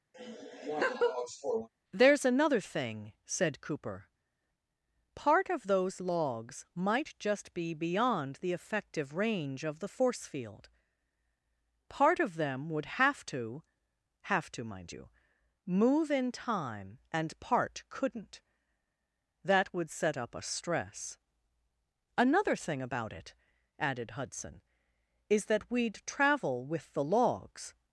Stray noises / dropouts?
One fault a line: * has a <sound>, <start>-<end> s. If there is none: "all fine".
* has a laugh, 0.1-1.7 s